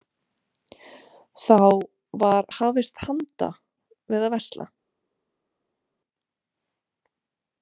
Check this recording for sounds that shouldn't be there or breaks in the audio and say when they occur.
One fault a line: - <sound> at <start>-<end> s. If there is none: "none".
none